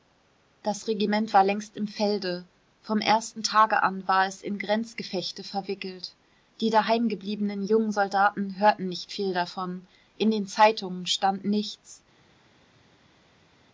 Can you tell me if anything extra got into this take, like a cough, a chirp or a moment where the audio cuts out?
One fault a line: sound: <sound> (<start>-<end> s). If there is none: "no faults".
no faults